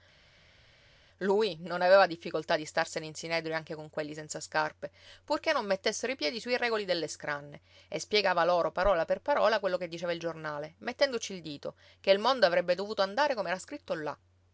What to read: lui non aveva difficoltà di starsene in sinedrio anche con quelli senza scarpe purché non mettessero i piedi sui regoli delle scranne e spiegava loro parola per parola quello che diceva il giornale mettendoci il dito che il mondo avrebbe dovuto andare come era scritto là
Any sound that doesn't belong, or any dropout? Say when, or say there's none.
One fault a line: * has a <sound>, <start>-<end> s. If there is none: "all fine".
all fine